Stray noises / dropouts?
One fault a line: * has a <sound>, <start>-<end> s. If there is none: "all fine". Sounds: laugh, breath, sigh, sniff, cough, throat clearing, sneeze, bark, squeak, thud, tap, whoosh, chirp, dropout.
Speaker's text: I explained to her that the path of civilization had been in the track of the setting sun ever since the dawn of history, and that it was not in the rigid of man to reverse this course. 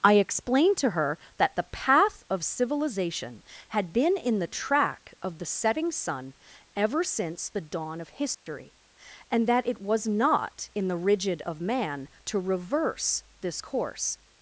* has a dropout, 8.3-8.5 s